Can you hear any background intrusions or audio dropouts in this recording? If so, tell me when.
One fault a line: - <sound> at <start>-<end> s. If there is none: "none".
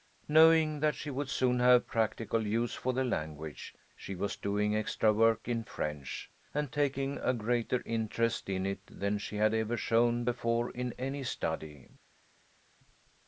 none